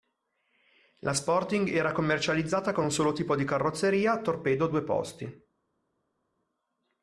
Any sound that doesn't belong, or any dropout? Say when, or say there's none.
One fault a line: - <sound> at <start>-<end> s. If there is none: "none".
none